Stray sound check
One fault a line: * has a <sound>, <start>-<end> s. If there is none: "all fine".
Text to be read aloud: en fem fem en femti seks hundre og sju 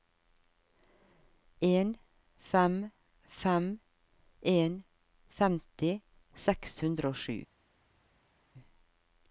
all fine